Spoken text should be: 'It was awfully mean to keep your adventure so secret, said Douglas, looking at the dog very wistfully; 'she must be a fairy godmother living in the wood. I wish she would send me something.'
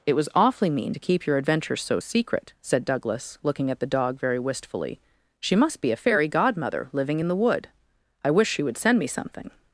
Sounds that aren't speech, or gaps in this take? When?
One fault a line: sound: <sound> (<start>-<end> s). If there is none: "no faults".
no faults